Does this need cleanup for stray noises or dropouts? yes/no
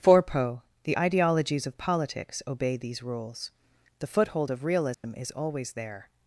yes